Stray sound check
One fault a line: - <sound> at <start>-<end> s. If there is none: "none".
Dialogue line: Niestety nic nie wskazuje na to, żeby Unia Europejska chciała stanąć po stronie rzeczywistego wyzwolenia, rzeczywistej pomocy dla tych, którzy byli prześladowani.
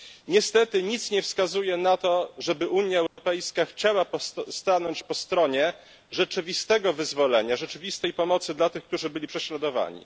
- dropout at 3.1-3.2 s